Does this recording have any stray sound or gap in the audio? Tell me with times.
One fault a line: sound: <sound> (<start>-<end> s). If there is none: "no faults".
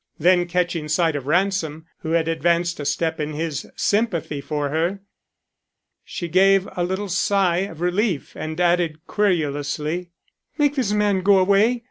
no faults